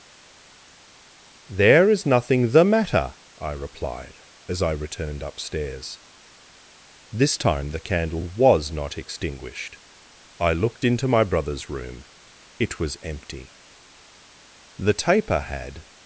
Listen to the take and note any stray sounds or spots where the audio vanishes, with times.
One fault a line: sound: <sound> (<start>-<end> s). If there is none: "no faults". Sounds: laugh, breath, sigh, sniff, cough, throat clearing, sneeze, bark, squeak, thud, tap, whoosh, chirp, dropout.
no faults